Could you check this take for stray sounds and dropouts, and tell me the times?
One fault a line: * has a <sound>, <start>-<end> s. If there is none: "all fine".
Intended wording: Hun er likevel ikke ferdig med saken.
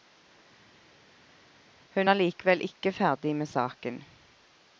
all fine